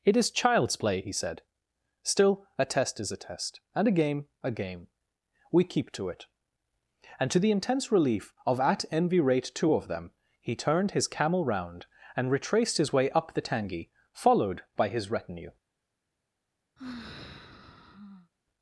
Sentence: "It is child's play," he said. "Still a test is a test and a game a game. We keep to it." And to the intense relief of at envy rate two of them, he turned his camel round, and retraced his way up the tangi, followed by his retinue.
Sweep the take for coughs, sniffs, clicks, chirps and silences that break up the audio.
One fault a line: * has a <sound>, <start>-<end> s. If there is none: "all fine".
* has a sigh, 16.8-18.3 s